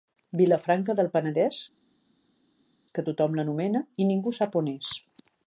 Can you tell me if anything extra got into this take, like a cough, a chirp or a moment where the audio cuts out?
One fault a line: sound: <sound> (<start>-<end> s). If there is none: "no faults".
no faults